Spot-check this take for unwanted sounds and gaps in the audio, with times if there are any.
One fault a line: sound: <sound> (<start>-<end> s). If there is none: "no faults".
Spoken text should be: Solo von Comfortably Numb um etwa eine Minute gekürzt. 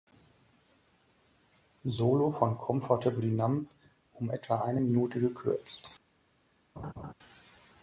sound: laugh (6.8-7.1 s)